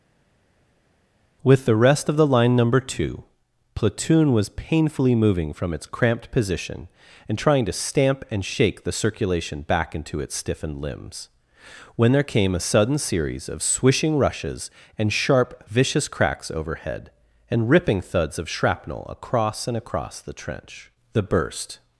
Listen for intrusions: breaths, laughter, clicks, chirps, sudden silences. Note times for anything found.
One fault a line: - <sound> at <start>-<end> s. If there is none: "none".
none